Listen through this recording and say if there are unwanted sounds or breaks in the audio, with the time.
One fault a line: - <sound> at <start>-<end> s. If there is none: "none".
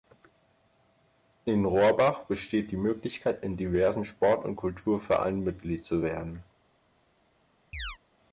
- chirp at 7.7-8.0 s